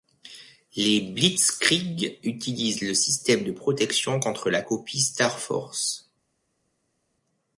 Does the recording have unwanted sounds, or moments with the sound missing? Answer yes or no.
no